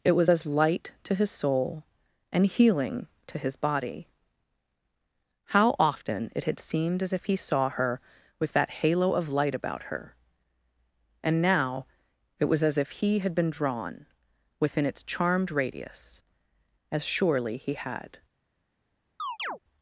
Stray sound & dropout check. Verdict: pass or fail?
fail